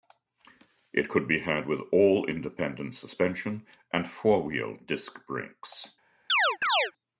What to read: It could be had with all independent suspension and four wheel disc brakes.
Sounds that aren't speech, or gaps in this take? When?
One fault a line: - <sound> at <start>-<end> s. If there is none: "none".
- chirp at 6.3-6.9 s